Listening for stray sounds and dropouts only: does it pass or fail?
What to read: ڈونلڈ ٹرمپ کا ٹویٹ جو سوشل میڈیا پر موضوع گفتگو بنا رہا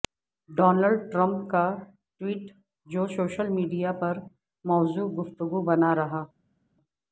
pass